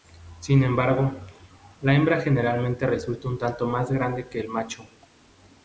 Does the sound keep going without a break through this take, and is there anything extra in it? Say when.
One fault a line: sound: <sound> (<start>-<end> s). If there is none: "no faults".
no faults